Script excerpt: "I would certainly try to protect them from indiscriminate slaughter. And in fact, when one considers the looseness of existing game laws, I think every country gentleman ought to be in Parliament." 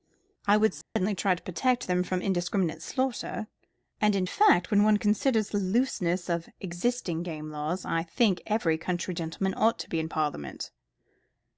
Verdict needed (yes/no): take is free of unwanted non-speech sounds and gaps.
no